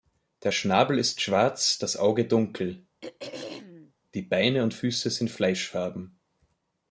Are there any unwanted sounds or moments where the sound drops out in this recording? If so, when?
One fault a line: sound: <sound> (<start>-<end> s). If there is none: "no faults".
sound: throat clearing (3.0-3.9 s)